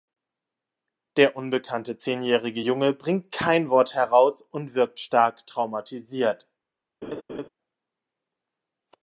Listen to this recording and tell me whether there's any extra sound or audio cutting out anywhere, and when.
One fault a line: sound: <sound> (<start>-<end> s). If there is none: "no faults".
sound: laugh (7.0-7.5 s)